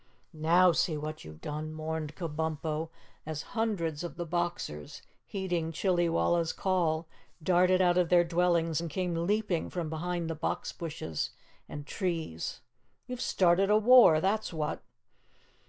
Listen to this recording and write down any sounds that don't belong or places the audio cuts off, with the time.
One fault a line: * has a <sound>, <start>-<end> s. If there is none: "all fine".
all fine